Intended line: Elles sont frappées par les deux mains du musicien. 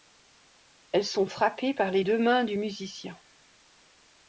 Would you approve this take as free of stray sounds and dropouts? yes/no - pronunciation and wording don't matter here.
yes